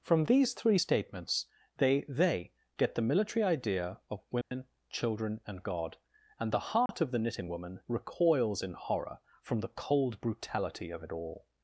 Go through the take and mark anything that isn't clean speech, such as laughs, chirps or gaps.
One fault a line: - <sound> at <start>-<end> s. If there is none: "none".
- dropout at 4.4-4.5 s
- dropout at 6.9-6.9 s